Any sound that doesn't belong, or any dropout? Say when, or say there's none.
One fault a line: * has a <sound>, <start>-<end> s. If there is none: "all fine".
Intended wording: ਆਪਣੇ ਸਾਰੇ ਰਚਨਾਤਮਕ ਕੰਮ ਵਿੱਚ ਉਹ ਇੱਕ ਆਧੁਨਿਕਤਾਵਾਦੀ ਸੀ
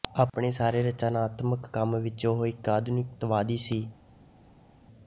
all fine